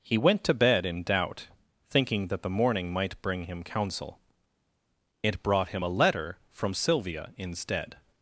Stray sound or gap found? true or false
false